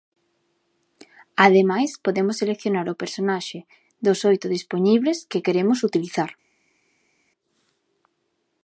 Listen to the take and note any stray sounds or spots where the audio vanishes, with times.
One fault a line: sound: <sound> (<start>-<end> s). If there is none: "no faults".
no faults